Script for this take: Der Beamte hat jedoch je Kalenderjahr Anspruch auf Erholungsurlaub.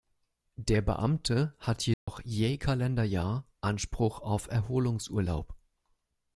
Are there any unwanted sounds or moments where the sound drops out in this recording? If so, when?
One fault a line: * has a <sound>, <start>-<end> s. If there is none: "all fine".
* has a dropout, 1.9-2.1 s